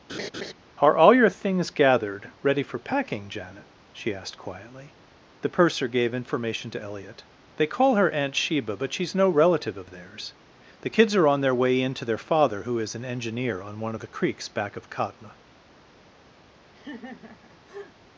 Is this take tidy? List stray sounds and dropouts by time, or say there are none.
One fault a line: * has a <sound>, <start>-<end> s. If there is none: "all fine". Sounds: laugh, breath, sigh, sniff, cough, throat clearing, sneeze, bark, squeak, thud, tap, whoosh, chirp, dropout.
* has a laugh, 0.1-0.5 s
* has a laugh, 16.7-17.9 s